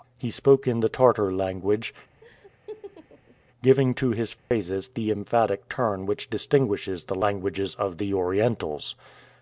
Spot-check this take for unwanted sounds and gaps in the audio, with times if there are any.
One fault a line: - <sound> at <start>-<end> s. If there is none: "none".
- laugh at 2.2-3.4 s
- dropout at 4.4-4.5 s